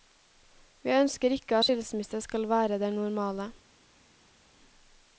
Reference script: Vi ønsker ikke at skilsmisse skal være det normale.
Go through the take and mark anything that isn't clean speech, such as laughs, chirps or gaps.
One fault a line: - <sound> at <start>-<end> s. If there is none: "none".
none